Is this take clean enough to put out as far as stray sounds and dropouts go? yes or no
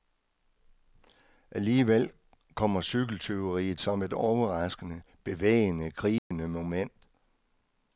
no